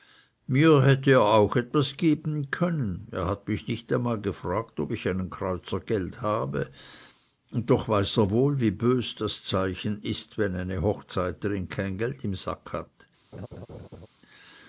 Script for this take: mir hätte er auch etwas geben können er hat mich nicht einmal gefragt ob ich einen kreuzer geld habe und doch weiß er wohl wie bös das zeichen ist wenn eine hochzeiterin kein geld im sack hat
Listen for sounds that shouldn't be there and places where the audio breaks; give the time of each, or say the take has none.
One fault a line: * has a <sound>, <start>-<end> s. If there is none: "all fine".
* has a laugh, 13.3-14.1 s